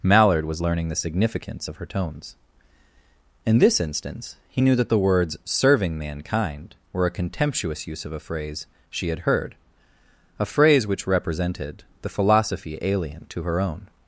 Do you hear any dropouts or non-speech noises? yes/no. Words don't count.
no